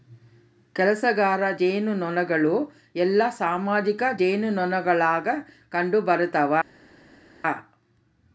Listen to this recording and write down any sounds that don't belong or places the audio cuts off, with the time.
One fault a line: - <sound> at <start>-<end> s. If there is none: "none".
none